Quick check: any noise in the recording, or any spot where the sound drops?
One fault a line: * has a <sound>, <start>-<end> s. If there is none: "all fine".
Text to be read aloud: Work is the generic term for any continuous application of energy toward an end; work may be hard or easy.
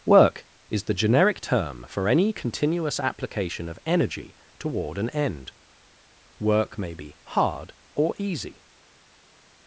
all fine